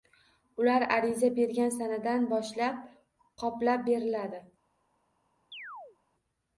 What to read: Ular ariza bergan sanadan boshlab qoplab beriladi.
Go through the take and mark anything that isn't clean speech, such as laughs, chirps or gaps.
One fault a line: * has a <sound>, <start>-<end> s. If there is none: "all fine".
* has a chirp, 5.5-6.0 s